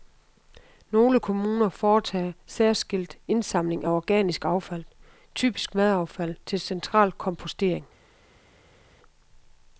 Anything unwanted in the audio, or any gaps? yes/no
no